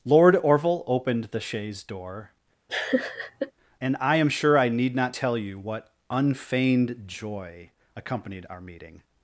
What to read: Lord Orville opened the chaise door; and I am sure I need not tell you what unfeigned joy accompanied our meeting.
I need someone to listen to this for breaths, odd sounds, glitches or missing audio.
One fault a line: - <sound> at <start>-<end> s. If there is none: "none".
- laugh at 2.7-3.5 s